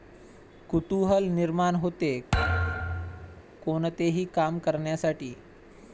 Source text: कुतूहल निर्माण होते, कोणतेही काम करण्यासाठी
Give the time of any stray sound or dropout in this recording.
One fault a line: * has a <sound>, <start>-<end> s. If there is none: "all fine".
* has a thud, 2.3-3.4 s